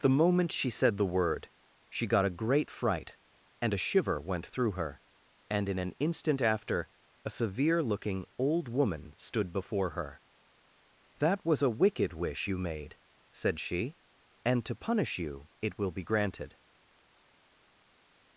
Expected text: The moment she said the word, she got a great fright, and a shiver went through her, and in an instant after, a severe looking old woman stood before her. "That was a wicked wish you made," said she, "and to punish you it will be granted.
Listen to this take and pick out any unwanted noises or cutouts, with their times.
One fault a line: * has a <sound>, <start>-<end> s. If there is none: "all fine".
all fine